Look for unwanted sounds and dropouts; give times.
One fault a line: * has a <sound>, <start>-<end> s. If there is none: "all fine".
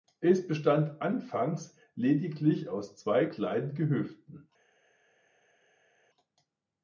all fine